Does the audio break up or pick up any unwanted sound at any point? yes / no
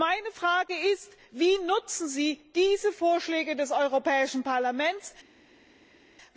no